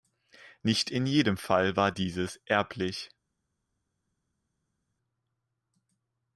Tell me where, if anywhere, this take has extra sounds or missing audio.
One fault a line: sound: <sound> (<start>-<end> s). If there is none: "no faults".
no faults